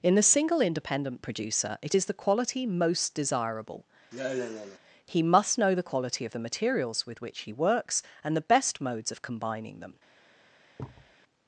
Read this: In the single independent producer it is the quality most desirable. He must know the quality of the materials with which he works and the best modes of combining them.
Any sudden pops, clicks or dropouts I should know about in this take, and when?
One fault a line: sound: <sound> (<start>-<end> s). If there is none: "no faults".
sound: sigh (4.1-4.8 s)
sound: thud (10.8-11.2 s)